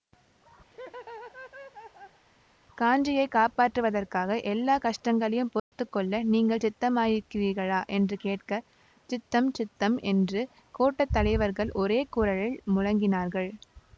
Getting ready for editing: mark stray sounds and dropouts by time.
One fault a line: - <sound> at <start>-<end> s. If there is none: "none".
- laugh at 0.7-2.2 s
- dropout at 5.6-5.7 s